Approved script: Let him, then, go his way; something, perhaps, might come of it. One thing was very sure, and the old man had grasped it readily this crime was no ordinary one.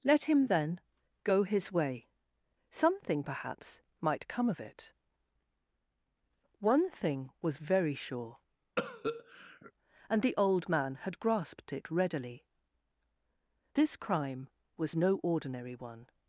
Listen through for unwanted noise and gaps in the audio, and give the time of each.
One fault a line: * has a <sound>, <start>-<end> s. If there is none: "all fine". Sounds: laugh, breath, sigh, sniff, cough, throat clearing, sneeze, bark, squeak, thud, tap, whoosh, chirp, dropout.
* has a cough, 8.8-9.7 s